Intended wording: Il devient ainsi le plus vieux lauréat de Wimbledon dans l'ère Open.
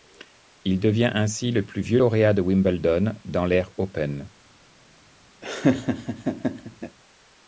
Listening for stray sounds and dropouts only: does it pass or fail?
fail